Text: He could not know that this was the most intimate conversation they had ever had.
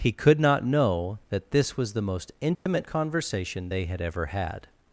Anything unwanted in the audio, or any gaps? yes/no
yes